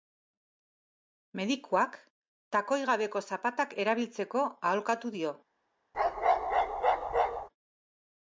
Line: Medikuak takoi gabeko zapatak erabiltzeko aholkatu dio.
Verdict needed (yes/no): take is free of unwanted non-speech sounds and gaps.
no